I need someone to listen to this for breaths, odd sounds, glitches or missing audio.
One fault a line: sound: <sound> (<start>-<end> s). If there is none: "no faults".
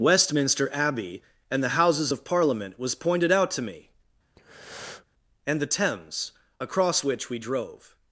sound: breath (4.4-5.1 s)